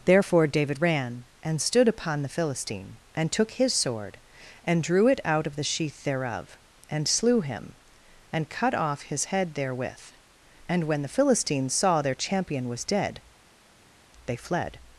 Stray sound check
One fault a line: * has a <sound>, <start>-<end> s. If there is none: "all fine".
all fine